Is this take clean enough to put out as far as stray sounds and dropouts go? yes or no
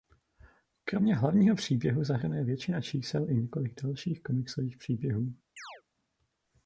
no